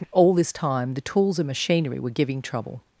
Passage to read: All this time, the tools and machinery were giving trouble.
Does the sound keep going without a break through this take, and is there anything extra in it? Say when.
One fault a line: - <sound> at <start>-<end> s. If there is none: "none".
none